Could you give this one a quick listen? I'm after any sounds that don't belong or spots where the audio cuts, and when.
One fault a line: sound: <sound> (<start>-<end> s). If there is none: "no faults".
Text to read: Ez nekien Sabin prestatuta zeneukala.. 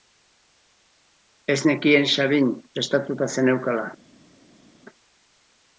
no faults